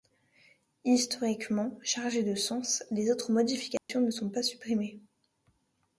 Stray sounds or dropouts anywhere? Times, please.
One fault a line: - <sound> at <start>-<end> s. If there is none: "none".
- dropout at 3.8-3.9 s